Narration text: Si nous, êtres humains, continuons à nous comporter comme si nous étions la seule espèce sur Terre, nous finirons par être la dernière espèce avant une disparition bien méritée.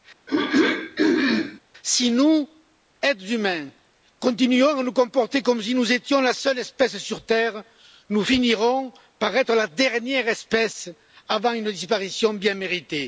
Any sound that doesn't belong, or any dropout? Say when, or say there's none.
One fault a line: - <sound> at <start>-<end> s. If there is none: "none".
- throat clearing at 0.3-1.6 s